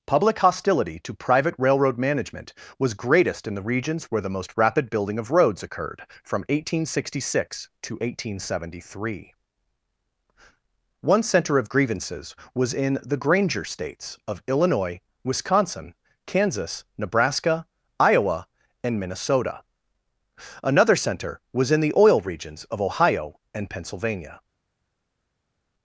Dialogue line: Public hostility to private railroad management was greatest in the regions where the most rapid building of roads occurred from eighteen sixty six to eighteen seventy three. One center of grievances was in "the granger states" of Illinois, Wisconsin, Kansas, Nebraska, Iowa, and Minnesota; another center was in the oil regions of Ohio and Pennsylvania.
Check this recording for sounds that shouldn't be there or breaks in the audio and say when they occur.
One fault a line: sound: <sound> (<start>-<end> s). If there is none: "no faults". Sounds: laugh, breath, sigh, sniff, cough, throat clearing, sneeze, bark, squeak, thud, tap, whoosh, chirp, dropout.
no faults